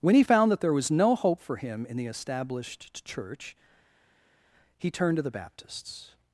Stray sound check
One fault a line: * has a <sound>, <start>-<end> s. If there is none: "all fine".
all fine